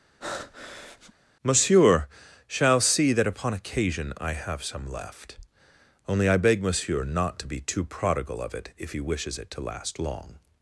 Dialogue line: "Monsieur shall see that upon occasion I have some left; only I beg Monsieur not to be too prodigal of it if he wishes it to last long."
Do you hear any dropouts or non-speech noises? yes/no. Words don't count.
yes